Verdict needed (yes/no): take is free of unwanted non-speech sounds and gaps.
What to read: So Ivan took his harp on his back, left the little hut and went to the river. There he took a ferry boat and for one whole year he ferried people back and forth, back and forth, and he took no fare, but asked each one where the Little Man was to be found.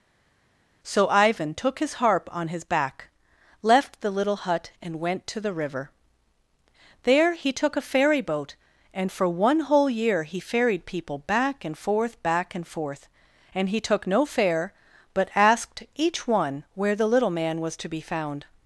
yes